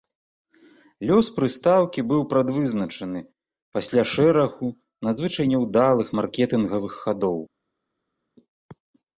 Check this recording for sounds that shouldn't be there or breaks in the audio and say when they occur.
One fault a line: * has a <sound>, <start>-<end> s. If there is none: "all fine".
all fine